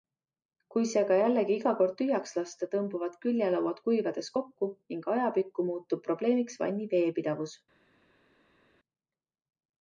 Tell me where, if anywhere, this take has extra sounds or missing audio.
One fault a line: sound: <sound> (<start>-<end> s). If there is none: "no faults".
no faults